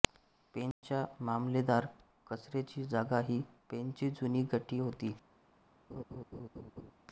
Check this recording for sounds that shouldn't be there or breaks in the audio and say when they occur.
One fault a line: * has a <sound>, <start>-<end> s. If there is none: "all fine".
* has a dropout, 0.7-0.8 s
* has a laugh, 5.9-6.9 s